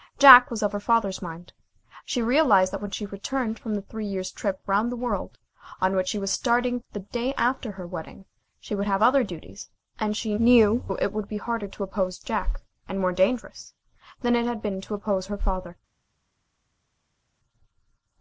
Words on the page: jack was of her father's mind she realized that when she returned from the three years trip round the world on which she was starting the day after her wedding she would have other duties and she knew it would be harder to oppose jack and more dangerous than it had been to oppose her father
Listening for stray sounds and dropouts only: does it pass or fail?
pass